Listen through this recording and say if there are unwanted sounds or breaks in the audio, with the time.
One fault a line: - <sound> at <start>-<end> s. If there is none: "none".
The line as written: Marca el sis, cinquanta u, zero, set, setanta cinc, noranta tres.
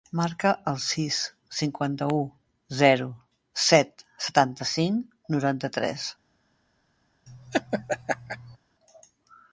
- laugh at 7.3-8.6 s